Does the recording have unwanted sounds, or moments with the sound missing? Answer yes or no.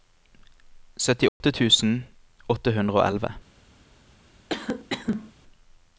yes